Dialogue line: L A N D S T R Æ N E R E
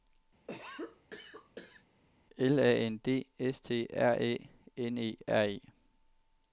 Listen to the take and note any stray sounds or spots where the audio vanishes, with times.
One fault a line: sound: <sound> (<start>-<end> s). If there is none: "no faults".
sound: cough (0.5-1.8 s)